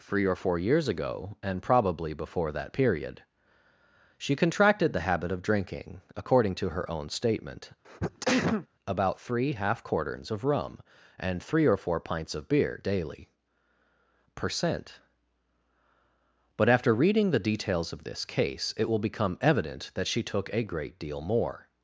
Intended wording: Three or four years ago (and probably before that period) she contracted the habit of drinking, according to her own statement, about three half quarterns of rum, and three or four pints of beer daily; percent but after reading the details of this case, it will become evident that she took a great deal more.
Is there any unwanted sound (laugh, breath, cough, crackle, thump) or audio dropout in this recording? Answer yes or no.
yes